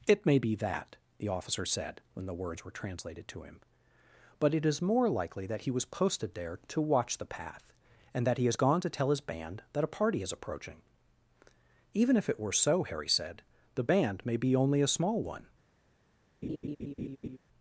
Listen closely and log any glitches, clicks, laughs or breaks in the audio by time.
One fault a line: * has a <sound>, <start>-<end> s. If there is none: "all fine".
* has a laugh, 16.4-17.4 s